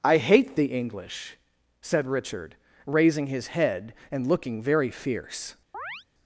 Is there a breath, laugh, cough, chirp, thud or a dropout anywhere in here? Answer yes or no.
yes